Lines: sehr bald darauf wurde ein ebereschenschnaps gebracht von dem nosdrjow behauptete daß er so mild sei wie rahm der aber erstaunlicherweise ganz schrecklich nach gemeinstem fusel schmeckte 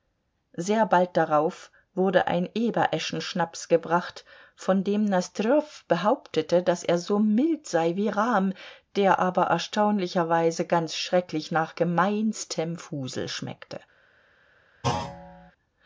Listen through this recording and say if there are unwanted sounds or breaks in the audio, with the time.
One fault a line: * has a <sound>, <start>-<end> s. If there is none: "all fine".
* has a thud, 14.8-15.5 s